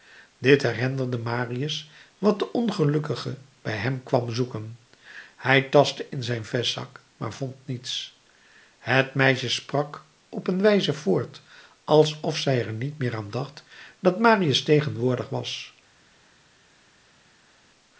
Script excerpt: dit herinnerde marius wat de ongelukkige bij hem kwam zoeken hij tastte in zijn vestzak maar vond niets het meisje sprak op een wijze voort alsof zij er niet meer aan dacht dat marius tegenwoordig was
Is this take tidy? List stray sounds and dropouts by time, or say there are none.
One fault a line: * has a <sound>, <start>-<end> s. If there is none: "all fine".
all fine